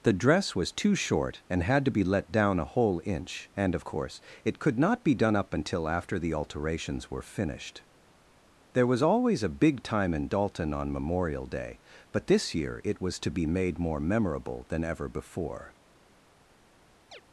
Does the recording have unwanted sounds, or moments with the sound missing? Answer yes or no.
yes